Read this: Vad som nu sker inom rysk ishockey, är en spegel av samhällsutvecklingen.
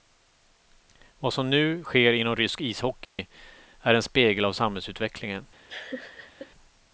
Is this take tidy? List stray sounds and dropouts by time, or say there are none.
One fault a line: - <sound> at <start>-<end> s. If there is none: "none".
- dropout at 3.0-3.2 s
- laugh at 5.7-6.5 s